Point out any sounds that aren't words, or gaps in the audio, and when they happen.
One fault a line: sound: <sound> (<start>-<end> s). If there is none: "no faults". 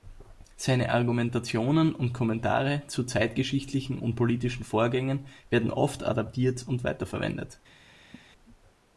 sound: laugh (8.1-8.3 s)